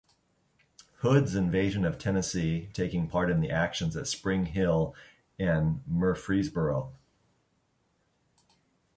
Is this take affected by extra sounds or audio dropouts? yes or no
no